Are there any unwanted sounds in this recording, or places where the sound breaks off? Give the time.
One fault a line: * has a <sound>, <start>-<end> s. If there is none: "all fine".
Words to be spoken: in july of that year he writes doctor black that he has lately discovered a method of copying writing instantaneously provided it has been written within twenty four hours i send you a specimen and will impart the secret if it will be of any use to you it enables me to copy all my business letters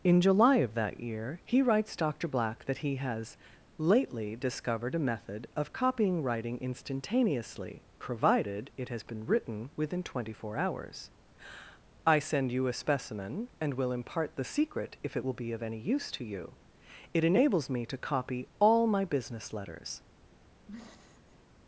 * has a throat clearing, 20.7-21.4 s